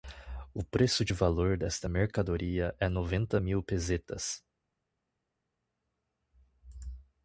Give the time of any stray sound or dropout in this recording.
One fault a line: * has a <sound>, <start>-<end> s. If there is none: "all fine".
all fine